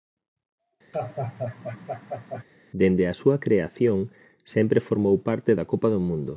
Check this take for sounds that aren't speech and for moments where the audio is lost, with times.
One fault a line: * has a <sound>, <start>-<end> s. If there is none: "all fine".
* has a laugh, 0.9-2.4 s